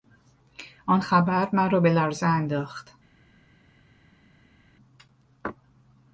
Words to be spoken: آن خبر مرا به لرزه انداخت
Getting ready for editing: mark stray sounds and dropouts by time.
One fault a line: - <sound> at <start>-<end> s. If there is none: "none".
none